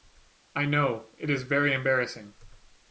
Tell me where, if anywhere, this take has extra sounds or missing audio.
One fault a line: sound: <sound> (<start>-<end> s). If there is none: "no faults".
no faults